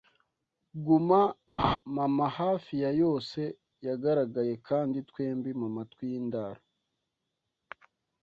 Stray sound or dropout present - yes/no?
yes